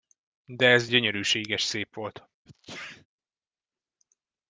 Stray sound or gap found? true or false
true